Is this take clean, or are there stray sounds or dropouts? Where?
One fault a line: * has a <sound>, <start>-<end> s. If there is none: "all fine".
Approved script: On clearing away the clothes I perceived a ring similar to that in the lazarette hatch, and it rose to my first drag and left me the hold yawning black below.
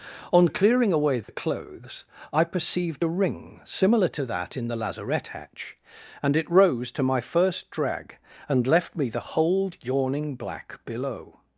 * has a dropout, 1.2-1.3 s